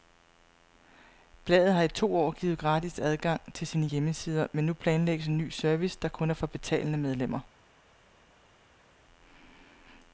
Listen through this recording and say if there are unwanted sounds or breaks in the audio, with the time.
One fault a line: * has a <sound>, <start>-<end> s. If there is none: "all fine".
all fine